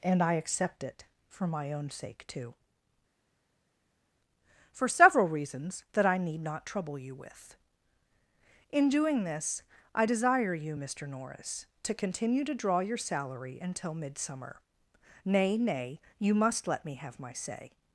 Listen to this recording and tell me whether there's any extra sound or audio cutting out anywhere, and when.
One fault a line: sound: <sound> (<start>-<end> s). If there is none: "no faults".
no faults